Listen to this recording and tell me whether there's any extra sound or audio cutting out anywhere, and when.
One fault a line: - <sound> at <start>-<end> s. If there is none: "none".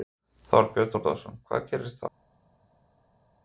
none